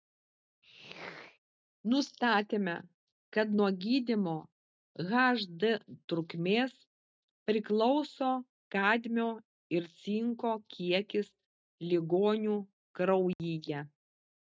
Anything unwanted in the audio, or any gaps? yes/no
yes